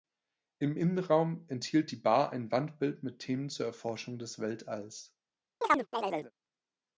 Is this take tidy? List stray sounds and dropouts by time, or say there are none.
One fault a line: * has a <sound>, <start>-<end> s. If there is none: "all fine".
* has a chirp, 5.6-6.3 s